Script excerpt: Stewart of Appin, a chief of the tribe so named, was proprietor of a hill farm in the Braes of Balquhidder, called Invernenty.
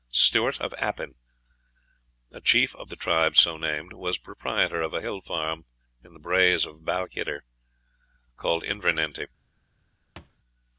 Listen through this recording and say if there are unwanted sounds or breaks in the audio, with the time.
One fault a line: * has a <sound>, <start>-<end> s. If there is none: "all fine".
* has a thud, 10.2-10.4 s